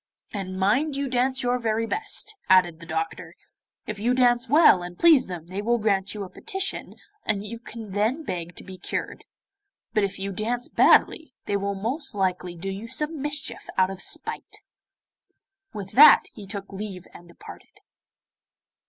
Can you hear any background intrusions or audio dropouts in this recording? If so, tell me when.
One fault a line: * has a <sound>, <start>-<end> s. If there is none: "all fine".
all fine